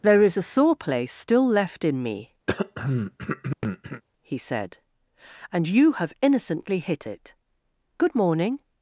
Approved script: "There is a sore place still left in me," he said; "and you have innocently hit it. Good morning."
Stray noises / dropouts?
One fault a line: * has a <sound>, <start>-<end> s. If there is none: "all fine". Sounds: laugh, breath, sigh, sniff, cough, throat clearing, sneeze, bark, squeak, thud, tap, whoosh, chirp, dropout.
* has a throat clearing, 2.5-4.0 s